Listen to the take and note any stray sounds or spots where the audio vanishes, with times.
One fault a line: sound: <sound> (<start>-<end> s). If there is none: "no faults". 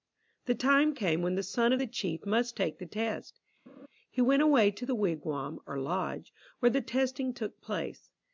sound: laugh (3.7-3.9 s)